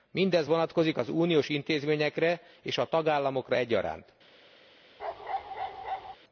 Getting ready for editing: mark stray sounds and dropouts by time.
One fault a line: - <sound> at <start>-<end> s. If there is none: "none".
- bark at 5.0-6.2 s